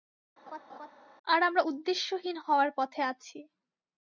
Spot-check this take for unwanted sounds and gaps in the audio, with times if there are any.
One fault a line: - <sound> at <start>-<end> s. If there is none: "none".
- laugh at 0.5-0.9 s